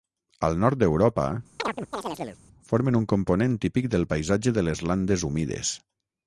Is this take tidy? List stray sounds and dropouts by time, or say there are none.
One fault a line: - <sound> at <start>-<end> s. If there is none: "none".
- chirp at 1.6-2.4 s